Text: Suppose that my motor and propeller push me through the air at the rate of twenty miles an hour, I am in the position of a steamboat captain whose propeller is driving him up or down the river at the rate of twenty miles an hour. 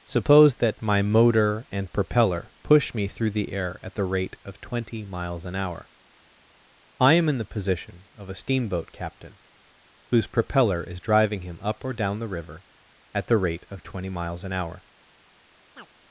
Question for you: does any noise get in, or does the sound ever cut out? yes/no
yes